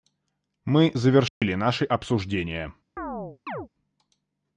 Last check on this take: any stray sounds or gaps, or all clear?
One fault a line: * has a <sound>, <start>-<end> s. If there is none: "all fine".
* has a dropout, 1.3-1.4 s
* has a chirp, 3.0-3.7 s